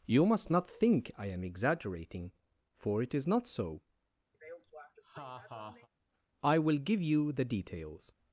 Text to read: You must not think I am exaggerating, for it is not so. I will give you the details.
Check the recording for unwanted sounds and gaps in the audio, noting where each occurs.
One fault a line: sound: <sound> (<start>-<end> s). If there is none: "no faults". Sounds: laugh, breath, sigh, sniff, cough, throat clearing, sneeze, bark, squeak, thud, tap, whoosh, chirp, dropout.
sound: laugh (4.3-5.9 s)